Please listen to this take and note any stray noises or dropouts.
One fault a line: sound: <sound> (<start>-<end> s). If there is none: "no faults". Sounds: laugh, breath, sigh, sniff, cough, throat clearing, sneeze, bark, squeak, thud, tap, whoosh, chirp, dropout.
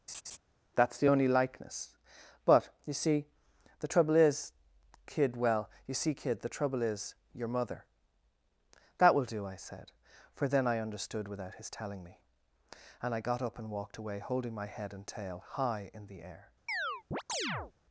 sound: laugh (0.1-0.4 s)
sound: chirp (16.7-17.7 s)